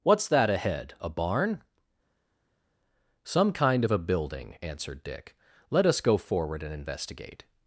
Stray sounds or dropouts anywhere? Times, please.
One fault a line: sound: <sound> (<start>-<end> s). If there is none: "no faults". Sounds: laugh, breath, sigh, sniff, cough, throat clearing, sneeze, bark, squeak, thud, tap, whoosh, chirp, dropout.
no faults